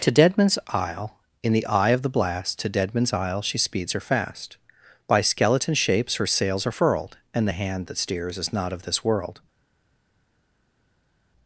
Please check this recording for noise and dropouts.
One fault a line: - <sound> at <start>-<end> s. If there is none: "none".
none